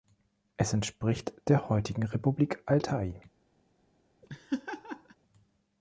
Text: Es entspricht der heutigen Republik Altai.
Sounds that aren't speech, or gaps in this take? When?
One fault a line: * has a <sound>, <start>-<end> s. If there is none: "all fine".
* has a laugh, 4.2-5.2 s